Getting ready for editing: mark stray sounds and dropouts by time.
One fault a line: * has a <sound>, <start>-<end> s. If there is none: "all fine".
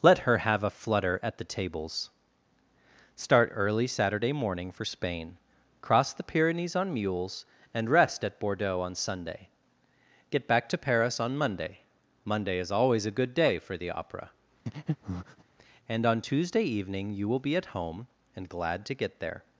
* has a breath, 14.7-15.4 s